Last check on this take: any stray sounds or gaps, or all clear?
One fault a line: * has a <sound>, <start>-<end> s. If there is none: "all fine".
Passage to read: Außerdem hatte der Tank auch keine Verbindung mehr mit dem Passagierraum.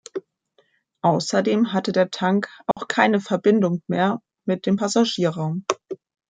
* has a dropout, 2.7-2.8 s